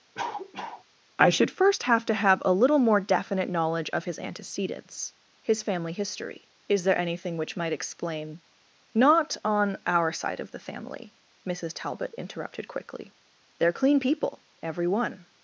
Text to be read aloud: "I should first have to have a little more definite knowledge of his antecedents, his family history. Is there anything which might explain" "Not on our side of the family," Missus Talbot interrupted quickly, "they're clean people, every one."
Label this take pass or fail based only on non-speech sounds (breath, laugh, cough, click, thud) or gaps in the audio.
fail